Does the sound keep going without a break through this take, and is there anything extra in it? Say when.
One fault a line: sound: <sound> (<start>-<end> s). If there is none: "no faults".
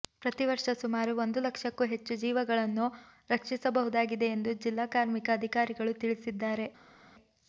no faults